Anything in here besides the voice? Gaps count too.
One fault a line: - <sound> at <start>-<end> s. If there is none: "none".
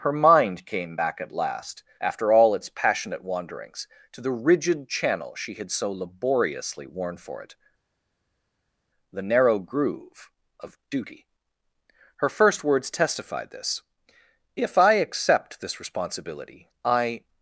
none